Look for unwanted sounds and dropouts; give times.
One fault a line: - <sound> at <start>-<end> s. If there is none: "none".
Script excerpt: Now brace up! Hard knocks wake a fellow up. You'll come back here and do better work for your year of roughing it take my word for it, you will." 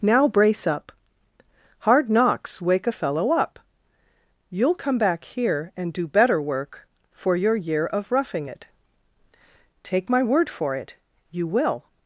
none